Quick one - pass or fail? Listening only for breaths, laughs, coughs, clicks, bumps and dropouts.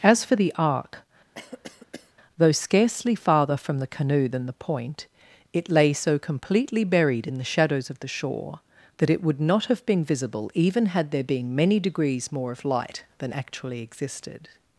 fail